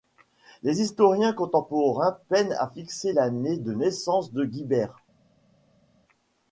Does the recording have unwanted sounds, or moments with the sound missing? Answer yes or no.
no